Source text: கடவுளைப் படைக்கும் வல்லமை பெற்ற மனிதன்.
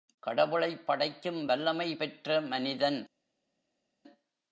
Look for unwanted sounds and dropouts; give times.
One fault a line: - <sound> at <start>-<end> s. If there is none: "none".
none